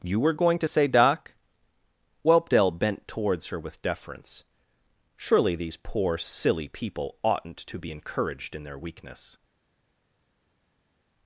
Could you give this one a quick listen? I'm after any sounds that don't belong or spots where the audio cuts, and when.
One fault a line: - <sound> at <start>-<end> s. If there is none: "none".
none